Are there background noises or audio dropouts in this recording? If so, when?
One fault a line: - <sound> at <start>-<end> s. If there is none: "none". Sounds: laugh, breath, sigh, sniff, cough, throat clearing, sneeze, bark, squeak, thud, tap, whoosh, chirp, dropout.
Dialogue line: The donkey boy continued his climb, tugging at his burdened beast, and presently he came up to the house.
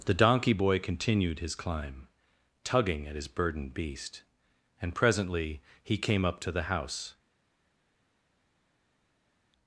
none